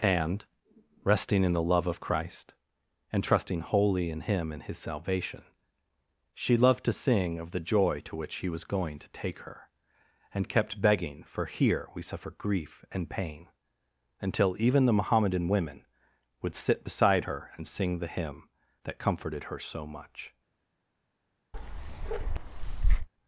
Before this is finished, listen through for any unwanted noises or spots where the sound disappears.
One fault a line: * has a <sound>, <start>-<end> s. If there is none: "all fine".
* has a bark, 21.5-23.1 s